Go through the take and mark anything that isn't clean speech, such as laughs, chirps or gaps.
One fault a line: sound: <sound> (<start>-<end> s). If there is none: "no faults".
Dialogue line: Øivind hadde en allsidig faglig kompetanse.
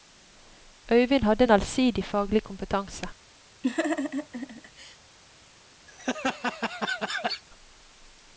sound: laugh (3.6-5.0 s)
sound: laugh (5.9-7.4 s)